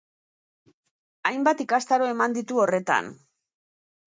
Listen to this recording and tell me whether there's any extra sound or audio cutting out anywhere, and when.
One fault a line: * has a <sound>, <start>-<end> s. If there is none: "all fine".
all fine